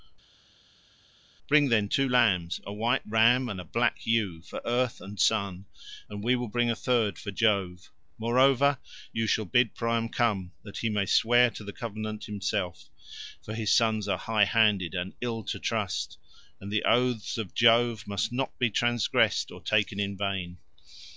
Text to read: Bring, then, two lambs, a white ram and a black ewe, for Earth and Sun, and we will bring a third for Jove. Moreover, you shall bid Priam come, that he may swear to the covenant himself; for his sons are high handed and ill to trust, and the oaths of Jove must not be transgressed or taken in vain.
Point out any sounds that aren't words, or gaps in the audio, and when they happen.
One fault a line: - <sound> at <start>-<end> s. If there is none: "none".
none